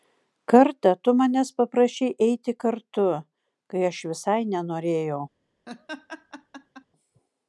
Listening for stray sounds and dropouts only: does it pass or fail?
fail